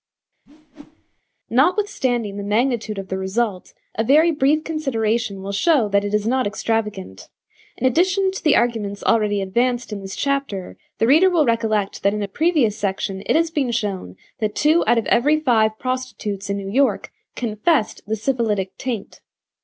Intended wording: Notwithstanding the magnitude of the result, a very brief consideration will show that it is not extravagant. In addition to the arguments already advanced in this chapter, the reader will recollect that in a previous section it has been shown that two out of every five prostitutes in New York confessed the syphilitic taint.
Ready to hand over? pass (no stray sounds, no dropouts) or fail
fail